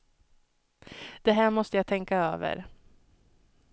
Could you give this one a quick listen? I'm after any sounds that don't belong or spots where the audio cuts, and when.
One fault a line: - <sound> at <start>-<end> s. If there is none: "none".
none